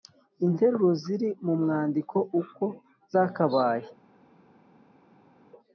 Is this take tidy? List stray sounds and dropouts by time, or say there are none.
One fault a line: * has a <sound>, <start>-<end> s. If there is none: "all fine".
all fine